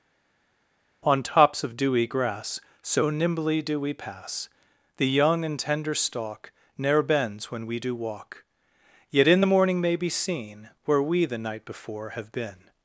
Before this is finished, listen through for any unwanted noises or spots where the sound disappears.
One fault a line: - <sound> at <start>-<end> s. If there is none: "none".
none